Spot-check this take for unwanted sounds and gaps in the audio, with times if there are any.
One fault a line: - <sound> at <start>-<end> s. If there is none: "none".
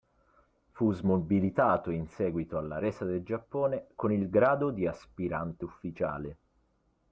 none